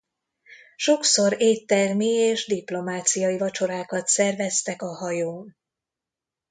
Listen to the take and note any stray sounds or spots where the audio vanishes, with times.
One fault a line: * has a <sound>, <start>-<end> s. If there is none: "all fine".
all fine